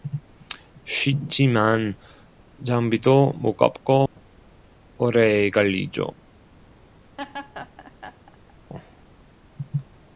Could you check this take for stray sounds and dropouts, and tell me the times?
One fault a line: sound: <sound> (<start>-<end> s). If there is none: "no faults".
sound: dropout (4.1-4.2 s)
sound: laugh (7.2-8.5 s)